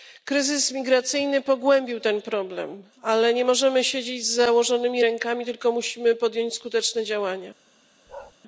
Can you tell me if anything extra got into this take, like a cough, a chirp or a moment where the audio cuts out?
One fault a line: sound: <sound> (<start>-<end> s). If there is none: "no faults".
sound: bark (8.1-8.3 s)